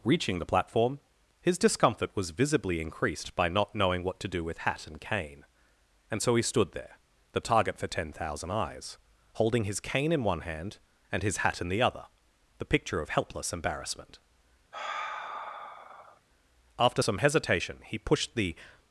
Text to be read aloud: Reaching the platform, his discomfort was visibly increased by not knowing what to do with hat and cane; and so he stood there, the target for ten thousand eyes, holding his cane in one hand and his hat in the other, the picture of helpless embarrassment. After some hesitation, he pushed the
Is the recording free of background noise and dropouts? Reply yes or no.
no